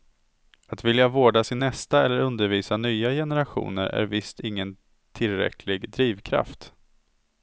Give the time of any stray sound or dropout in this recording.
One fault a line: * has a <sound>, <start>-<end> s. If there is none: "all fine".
all fine